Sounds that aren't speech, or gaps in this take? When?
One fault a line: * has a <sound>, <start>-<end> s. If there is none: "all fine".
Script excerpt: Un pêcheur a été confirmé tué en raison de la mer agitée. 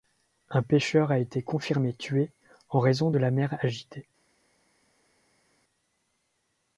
all fine